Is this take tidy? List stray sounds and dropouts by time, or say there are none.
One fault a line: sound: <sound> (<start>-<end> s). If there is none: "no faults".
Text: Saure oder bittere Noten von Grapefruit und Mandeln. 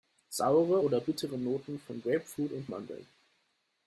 no faults